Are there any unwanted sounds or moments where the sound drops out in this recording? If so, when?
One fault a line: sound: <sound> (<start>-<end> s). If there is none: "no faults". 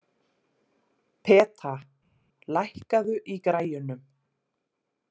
no faults